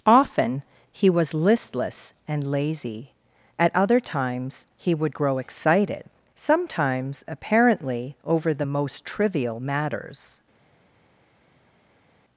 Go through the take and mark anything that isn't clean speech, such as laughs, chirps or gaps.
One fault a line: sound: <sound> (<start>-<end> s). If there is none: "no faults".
no faults